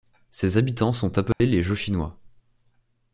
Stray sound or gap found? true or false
true